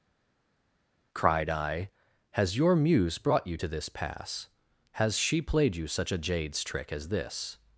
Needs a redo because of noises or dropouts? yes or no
no